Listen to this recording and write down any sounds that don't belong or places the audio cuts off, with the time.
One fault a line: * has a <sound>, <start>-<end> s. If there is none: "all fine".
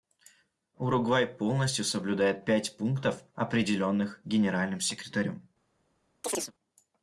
* has a chirp, 6.2-6.5 s